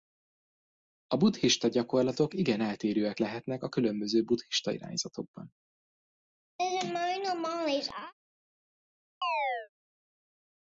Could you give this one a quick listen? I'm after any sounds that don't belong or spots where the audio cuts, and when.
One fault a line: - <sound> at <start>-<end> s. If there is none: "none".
- laugh at 6.6-8.1 s
- chirp at 9.2-9.7 s